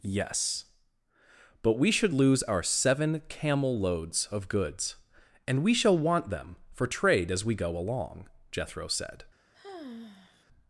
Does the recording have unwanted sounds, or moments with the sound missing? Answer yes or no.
yes